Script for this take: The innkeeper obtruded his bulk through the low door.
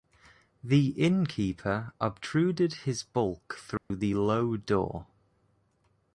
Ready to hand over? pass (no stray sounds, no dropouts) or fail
fail